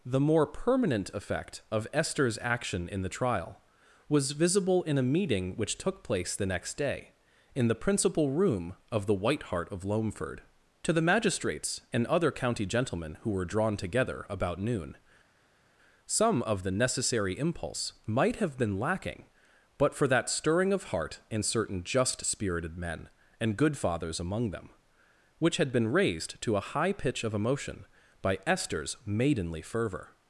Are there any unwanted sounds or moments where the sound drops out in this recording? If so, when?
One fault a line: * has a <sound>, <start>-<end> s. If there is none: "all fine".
all fine